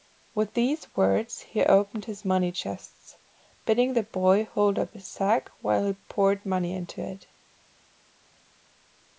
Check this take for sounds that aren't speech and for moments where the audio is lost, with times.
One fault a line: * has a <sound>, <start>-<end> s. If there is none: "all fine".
all fine